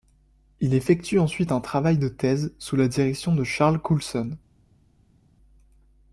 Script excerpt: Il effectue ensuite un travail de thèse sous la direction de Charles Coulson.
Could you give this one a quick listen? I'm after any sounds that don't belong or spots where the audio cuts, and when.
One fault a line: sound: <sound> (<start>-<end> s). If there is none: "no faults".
no faults